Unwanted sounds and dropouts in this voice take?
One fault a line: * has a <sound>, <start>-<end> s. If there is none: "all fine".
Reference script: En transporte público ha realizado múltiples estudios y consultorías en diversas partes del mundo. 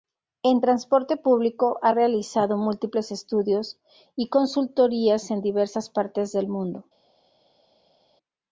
all fine